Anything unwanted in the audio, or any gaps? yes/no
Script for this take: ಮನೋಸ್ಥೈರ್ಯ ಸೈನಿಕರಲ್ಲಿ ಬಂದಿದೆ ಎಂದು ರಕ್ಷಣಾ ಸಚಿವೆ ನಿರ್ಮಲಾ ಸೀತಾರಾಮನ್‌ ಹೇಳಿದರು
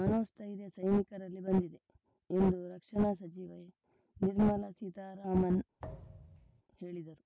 yes